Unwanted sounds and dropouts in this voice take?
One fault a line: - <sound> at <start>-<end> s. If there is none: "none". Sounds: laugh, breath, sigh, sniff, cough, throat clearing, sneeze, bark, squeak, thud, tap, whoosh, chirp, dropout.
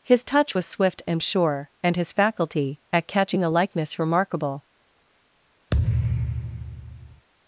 - thud at 5.7-7.3 s